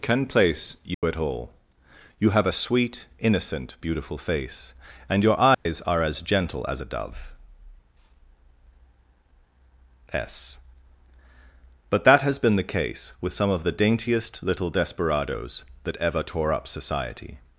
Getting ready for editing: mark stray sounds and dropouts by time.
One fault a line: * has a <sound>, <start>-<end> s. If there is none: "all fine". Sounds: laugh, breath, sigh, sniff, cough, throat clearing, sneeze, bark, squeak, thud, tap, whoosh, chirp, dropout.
* has a dropout, 0.9-1.0 s
* has a dropout, 5.5-5.7 s